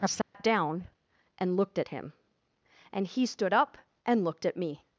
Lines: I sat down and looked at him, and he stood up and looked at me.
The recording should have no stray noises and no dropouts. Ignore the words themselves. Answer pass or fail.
fail